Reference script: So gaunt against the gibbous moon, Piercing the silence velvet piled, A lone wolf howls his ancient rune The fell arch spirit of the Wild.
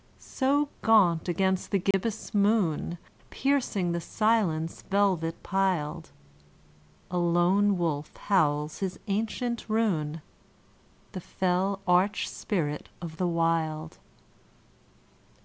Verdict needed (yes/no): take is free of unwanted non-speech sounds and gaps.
no